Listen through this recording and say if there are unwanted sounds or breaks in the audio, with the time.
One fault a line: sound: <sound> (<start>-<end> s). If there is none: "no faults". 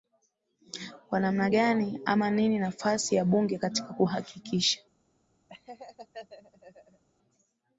sound: laugh (5.5-7.0 s)